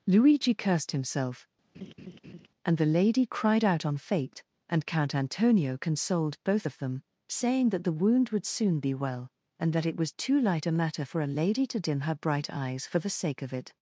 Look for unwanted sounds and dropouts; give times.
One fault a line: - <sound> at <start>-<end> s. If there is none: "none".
- laugh at 1.7-2.5 s